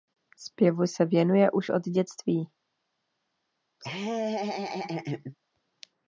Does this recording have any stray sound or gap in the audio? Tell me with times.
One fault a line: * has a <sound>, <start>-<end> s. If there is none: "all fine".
* has a laugh, 3.8-5.3 s